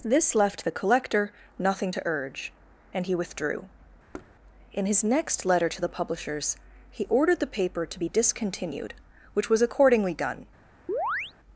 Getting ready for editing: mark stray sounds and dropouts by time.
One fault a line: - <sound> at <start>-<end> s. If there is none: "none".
- thud at 4.1-4.3 s
- chirp at 10.9-11.3 s